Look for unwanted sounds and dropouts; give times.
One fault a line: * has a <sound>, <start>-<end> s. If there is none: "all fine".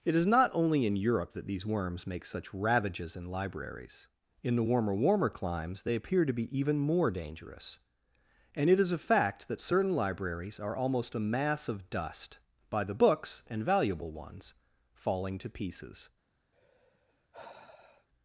* has a sigh, 16.5-18.1 s